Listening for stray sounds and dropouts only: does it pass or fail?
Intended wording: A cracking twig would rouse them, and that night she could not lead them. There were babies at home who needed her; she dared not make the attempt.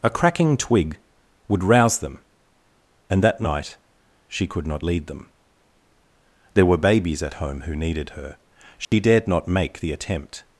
fail